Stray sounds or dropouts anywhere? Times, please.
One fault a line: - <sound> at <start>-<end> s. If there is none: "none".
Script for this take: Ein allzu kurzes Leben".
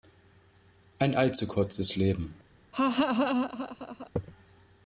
- laugh at 2.7-4.1 s